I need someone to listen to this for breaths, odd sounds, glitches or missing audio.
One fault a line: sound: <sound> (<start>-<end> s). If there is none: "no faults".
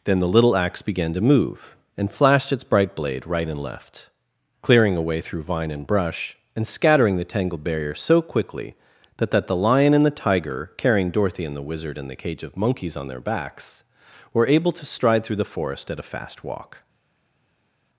no faults